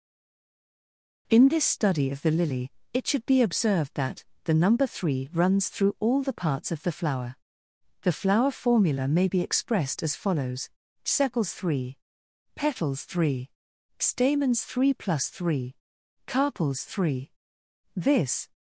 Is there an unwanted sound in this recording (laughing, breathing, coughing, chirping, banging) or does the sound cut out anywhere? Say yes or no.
no